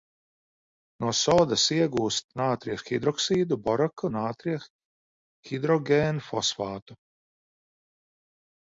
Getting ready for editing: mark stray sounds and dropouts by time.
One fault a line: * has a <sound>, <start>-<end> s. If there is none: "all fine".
all fine